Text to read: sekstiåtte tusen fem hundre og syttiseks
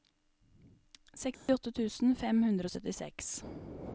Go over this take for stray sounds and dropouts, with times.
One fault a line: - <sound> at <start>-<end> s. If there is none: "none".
- dropout at 1.3-1.5 s